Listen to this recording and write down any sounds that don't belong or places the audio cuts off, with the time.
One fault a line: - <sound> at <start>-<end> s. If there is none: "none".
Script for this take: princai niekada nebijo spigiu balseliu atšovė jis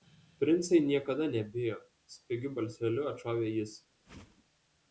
- whoosh at 4.0-4.4 s